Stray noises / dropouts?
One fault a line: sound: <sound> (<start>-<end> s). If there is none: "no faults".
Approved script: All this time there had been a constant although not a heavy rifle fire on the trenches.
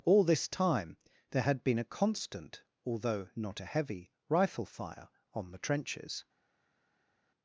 no faults